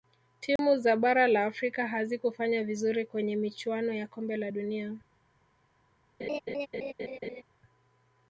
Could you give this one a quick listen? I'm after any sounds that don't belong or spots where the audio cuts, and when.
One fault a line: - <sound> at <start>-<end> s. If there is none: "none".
- dropout at 0.6-0.6 s
- laugh at 6.2-7.4 s